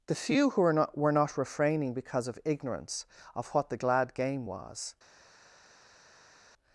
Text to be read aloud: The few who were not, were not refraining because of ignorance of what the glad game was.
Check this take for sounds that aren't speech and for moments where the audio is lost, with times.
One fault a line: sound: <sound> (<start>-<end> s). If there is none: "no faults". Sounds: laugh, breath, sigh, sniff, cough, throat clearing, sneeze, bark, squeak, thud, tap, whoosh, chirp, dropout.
no faults